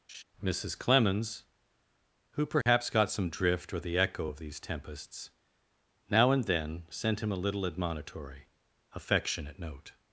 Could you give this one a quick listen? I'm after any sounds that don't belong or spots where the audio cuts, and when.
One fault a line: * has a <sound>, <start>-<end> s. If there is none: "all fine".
* has a laugh, 0.1-0.2 s
* has a dropout, 2.6-2.7 s